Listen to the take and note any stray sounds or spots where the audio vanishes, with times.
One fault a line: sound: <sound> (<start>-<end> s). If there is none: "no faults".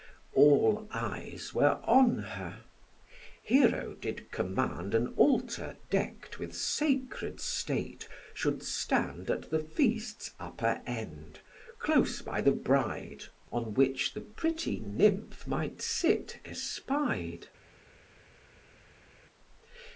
no faults